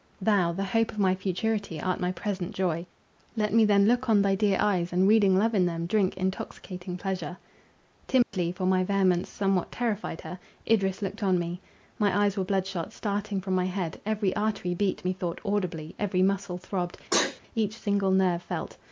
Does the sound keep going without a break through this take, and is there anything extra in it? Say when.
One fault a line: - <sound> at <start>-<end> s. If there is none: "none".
- dropout at 8.2-8.3 s
- sneeze at 17.1-17.4 s